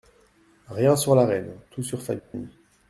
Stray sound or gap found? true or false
true